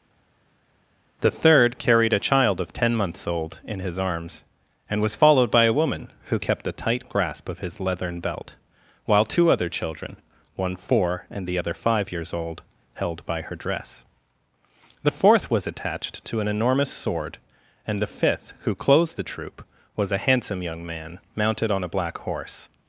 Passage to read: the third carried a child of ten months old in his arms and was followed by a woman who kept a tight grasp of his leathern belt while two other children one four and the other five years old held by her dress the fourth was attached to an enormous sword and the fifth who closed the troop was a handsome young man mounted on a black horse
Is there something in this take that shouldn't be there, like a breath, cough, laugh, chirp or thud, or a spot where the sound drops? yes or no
no